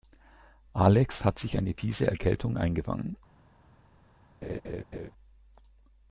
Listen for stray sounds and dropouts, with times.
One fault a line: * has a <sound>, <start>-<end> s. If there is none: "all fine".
* has a laugh, 4.4-5.1 s